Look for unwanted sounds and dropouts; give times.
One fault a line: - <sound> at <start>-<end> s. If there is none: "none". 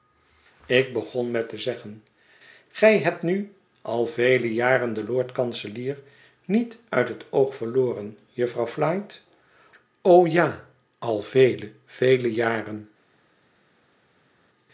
none